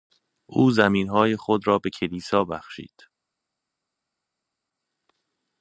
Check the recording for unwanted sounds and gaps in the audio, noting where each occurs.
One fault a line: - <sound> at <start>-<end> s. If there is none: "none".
none